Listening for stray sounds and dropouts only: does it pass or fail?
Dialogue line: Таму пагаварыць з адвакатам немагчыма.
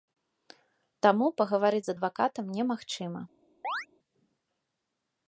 fail